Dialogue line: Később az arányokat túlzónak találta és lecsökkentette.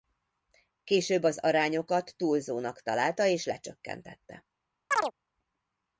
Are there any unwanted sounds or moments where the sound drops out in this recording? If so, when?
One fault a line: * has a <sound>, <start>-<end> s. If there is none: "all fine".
* has a chirp, 4.9-5.1 s